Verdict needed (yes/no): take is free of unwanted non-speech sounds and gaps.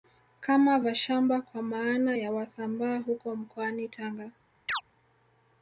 no